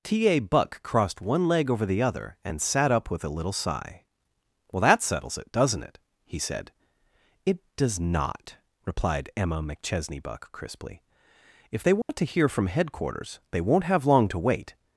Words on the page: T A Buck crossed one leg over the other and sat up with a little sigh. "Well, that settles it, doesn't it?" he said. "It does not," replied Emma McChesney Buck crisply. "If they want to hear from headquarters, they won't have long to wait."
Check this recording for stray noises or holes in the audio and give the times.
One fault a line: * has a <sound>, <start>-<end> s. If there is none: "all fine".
* has a dropout, 12.0-12.1 s